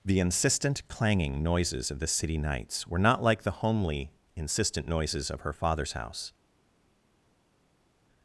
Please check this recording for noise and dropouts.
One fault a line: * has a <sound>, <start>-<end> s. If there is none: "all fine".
all fine